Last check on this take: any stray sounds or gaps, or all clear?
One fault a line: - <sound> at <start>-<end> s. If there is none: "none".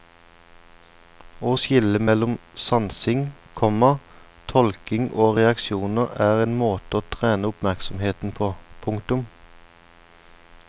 none